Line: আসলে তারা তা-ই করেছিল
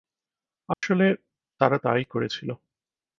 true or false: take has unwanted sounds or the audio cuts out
true